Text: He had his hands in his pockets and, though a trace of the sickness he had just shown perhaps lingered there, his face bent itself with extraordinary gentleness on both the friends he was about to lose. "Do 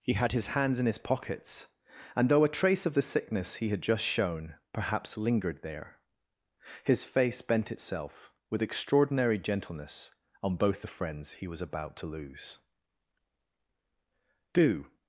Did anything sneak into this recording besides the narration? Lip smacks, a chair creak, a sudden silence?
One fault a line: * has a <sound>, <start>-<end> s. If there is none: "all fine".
all fine